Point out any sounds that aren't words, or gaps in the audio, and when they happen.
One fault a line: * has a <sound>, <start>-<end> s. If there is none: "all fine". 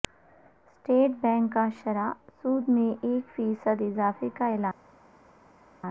all fine